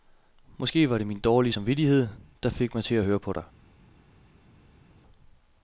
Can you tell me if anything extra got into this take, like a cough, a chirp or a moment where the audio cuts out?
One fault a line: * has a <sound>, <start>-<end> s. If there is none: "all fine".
all fine